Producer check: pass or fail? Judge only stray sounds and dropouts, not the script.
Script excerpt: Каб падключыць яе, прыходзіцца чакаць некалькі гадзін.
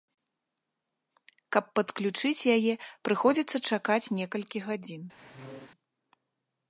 fail